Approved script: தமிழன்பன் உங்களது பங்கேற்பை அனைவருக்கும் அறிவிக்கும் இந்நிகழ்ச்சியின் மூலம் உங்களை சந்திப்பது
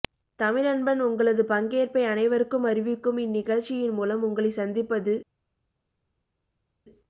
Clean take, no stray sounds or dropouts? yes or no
yes